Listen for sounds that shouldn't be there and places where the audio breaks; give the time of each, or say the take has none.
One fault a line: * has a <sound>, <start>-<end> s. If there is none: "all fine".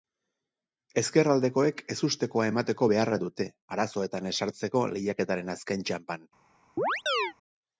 * has a chirp, 6.8-7.3 s